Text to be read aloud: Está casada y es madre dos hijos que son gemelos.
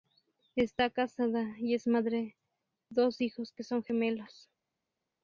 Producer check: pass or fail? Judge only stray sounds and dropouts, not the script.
pass